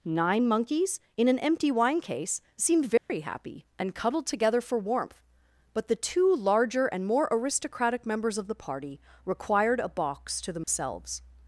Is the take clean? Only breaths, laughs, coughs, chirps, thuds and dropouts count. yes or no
no